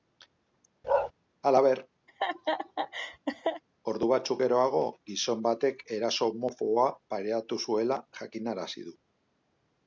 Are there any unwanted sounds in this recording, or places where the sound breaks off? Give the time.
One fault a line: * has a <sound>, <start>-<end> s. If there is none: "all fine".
* has a bark, 0.8-1.1 s
* has a laugh, 2.1-3.6 s